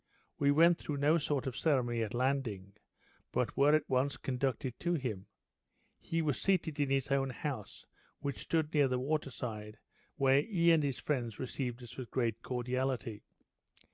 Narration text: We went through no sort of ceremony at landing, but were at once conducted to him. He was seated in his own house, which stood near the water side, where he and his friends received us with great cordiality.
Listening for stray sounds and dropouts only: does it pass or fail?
pass